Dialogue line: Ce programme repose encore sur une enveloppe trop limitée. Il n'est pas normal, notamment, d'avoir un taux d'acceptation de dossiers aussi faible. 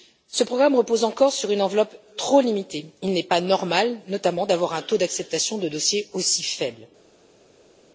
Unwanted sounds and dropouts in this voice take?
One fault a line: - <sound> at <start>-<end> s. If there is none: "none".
none